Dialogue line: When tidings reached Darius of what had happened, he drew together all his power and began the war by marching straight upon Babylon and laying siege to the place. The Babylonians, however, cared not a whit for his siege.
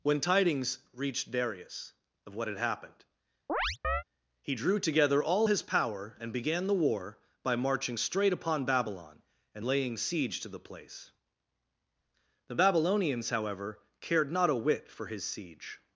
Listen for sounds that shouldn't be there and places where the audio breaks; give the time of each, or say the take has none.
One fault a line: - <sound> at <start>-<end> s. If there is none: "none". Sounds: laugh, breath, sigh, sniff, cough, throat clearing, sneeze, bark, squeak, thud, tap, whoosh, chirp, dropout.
- chirp at 3.5-4.0 s